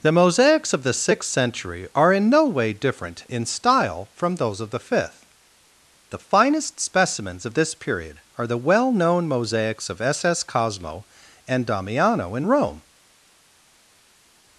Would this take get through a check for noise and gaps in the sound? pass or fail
pass